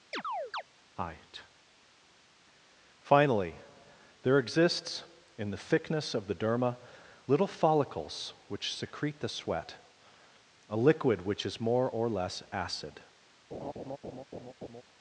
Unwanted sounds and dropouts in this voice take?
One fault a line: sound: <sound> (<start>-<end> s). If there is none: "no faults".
sound: chirp (0.1-0.6 s)
sound: laugh (13.5-14.8 s)